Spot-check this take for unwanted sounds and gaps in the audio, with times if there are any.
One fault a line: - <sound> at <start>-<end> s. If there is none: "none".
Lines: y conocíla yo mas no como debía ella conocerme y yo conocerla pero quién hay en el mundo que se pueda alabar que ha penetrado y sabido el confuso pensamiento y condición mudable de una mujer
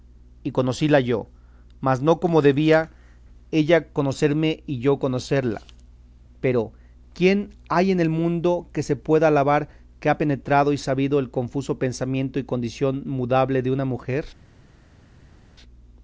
none